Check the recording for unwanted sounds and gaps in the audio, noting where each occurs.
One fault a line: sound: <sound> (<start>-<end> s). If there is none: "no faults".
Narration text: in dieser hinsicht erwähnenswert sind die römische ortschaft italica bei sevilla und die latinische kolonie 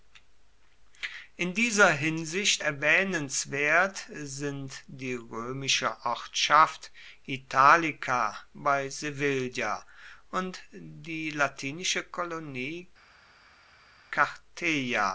no faults